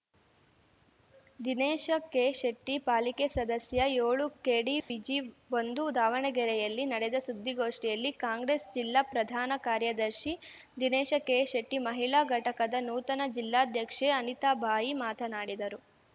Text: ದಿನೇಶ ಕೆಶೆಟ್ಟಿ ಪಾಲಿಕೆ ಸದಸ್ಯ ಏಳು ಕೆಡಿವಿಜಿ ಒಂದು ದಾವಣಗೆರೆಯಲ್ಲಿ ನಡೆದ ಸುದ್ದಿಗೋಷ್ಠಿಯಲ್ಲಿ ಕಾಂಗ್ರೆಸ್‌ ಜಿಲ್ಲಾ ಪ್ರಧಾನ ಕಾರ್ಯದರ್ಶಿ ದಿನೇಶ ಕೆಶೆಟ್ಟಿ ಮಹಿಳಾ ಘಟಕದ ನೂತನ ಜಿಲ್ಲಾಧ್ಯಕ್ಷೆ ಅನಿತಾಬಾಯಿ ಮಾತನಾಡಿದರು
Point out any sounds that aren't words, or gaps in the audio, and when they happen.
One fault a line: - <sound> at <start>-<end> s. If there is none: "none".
- dropout at 4.8-4.9 s